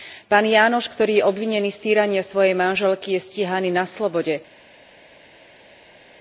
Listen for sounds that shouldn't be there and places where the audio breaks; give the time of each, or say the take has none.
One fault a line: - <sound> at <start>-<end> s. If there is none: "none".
none